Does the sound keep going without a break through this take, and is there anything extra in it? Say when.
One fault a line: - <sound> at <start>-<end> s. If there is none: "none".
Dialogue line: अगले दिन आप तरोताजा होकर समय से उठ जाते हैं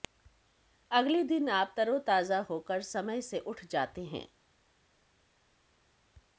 none